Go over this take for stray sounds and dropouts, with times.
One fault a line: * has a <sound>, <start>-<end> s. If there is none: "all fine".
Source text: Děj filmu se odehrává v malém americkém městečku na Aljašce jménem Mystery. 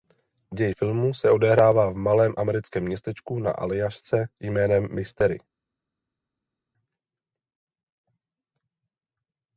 all fine